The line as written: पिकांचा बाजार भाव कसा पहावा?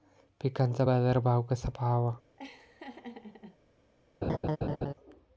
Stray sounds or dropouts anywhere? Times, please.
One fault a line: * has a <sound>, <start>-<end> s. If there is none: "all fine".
* has a laugh, 2.4-3.6 s
* has a laugh, 4.2-4.9 s